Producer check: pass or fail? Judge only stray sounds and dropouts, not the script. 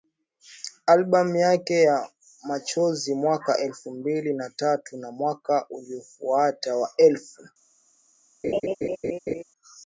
fail